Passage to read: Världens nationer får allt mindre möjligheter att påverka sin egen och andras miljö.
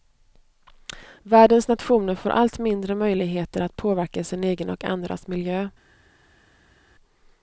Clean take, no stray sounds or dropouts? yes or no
yes